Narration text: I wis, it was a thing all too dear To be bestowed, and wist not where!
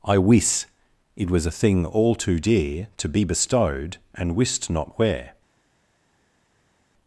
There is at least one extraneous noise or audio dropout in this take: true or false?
false